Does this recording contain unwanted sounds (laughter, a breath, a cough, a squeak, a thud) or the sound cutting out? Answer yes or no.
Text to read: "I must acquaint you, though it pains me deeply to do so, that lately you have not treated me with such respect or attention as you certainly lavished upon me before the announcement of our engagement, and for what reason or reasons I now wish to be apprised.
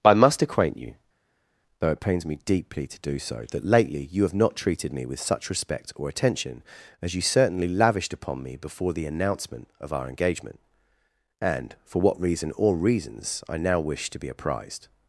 no